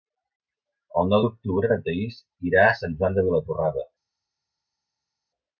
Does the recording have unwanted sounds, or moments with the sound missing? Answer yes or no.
no